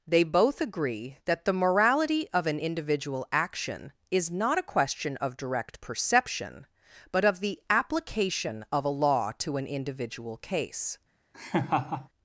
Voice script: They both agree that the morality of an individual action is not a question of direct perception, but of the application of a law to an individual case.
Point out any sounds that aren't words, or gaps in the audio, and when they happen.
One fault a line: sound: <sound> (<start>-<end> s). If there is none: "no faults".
sound: laugh (11.3-12.1 s)